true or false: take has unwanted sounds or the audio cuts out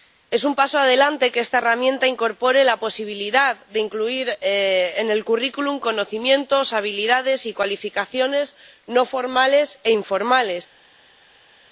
false